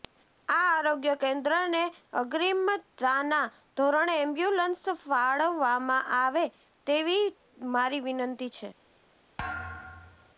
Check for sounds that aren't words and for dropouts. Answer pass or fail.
fail